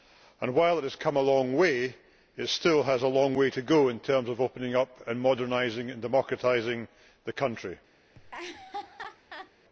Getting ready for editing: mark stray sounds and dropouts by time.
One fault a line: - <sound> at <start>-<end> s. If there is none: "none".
- laugh at 8.1-9.5 s